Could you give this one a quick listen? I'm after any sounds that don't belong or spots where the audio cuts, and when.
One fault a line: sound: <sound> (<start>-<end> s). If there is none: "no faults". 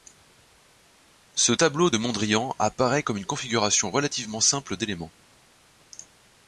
no faults